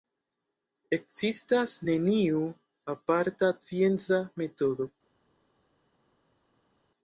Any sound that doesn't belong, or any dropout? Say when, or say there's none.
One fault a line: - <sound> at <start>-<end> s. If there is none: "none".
none